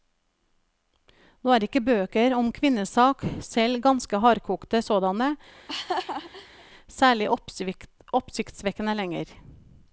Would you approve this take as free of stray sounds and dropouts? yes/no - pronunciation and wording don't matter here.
no